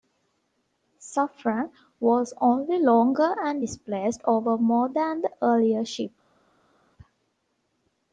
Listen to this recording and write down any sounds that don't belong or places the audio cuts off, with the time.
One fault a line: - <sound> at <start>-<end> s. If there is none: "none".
none